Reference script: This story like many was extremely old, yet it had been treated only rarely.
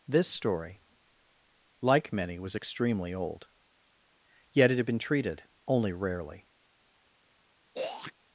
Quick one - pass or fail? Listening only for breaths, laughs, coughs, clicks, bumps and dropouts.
fail